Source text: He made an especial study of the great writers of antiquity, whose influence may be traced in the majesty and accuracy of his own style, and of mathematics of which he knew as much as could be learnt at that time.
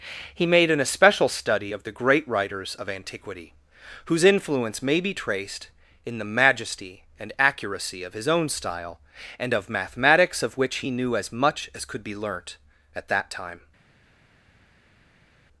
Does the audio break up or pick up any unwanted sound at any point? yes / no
no